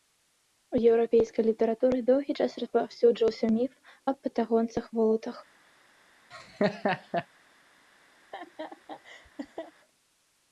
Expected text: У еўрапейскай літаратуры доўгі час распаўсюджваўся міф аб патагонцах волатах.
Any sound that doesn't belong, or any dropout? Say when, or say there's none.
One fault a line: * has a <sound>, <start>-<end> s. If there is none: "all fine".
* has a laugh, 6.3-7.3 s
* has a laugh, 8.2-9.7 s